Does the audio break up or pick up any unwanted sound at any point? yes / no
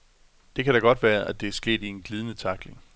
no